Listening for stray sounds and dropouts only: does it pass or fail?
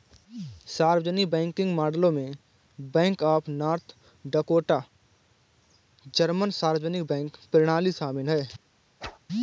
fail